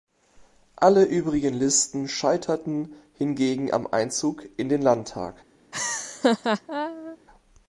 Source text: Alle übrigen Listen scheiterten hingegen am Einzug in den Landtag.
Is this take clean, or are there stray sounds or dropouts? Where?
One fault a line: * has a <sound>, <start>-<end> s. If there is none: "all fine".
* has a laugh, 5.7-7.2 s